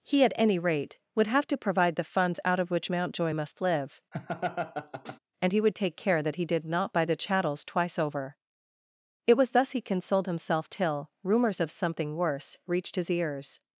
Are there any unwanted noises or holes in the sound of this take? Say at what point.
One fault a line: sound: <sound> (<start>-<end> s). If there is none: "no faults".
sound: laugh (4.1-5.2 s)